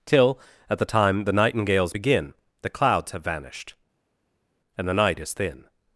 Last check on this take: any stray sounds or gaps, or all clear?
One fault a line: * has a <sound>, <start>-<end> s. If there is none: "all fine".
all fine